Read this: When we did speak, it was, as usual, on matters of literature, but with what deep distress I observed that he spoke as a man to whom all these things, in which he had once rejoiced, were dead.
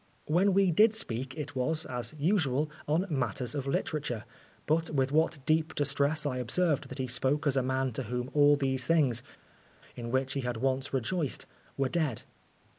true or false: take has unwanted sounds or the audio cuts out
false